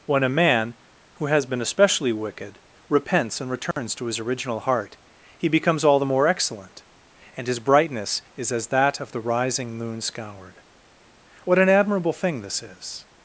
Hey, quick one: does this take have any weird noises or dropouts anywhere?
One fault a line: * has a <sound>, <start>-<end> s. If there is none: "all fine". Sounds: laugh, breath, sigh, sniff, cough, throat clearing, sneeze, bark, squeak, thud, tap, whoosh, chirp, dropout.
* has a dropout, 3.7-3.8 s